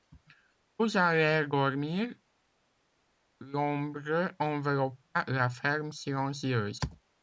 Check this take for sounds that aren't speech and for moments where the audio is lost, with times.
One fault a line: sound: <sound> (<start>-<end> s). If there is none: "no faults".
no faults